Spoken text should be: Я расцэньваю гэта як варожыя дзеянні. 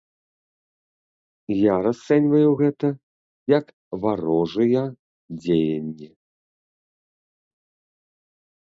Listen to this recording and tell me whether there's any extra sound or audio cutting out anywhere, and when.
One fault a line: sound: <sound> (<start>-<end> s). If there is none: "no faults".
no faults